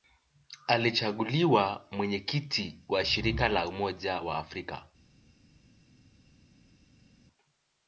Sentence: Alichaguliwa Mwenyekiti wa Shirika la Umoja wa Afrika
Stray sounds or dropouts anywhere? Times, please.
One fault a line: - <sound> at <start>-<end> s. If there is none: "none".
none